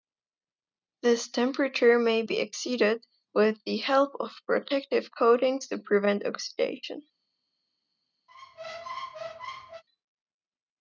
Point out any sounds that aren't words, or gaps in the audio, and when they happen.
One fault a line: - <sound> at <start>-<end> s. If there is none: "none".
- squeak at 8.3-9.8 s